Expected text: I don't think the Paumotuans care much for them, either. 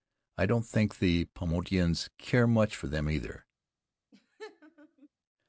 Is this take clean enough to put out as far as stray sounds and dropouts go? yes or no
no